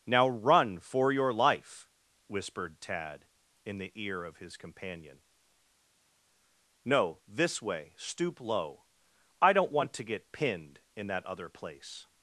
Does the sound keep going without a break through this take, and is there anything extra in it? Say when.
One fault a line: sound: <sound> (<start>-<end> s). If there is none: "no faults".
no faults